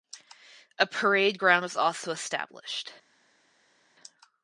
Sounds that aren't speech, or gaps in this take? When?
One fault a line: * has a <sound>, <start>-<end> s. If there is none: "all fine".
all fine